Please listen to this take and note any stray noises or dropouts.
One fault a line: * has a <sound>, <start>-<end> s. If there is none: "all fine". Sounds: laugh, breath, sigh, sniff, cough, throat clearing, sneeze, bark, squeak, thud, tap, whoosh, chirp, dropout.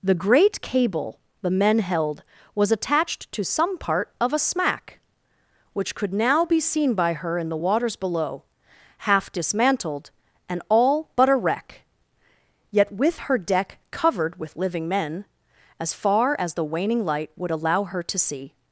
all fine